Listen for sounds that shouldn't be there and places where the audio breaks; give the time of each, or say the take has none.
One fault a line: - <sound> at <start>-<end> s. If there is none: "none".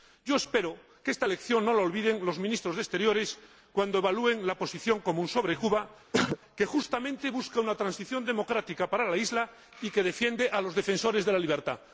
- throat clearing at 6.1-6.4 s